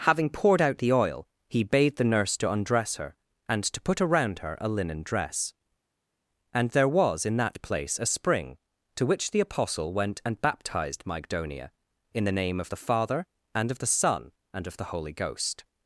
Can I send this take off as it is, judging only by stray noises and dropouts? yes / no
yes